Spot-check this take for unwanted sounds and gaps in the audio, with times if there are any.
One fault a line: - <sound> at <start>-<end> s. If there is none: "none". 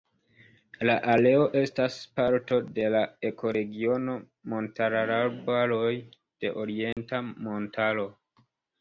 - dropout at 6.9-7.0 s